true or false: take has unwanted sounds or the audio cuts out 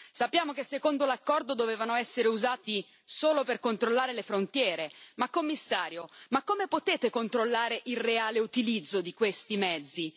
false